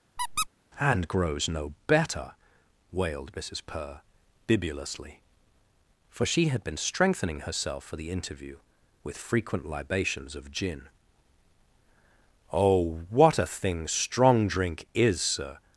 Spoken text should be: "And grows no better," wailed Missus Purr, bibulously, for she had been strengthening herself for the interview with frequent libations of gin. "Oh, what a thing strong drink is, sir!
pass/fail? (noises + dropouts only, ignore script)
fail